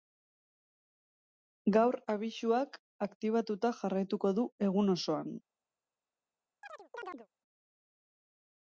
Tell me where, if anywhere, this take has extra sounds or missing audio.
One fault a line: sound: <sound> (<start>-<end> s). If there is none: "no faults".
sound: chirp (6.6-7.3 s)